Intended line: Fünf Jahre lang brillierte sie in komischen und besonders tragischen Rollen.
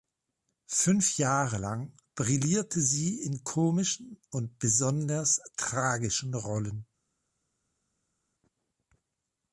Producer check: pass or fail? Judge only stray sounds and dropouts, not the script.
pass